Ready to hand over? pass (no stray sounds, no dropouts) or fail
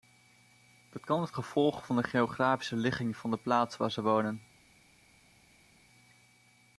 pass